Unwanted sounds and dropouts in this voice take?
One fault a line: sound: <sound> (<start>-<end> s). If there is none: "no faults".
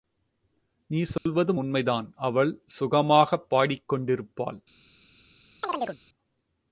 sound: dropout (1.2-1.3 s)
sound: chirp (5.6-6.0 s)